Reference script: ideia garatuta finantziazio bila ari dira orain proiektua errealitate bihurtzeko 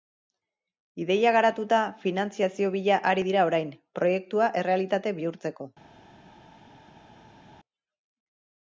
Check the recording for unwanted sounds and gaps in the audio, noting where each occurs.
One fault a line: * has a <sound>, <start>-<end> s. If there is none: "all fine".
all fine